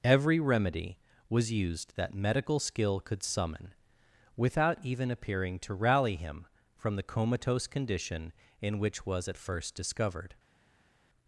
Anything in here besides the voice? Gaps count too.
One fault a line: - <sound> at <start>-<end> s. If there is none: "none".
none